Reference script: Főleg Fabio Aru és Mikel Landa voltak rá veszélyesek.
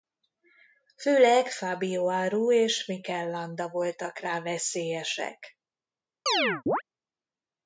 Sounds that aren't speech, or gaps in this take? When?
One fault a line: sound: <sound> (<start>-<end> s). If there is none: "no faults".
sound: chirp (6.3-6.8 s)